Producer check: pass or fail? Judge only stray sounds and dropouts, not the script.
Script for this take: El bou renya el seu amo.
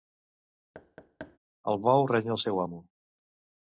fail